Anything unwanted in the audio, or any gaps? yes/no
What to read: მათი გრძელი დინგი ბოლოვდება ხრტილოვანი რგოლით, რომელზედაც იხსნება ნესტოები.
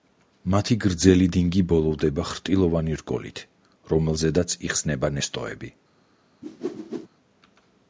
yes